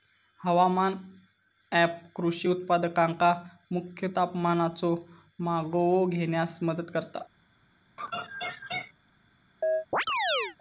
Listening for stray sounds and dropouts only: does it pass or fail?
fail